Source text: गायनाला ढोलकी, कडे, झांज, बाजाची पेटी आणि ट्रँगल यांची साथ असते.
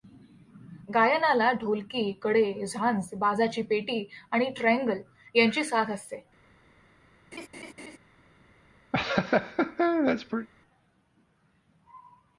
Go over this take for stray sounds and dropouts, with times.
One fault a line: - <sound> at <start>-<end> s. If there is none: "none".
- laugh at 7.3-8.0 s
- laugh at 8.9-10.5 s